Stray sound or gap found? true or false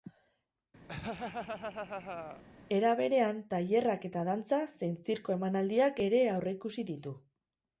true